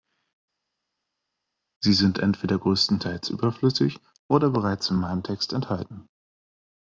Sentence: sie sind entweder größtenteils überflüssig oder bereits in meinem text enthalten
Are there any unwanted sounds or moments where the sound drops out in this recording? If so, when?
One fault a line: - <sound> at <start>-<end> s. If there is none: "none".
none